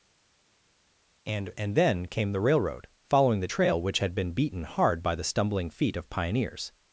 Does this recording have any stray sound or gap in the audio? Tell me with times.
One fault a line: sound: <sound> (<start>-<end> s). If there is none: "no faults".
no faults